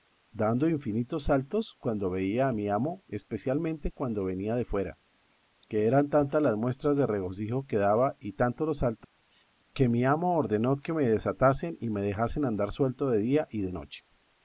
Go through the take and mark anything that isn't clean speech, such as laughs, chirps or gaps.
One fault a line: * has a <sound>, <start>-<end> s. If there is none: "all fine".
* has a dropout, 9.0-9.2 s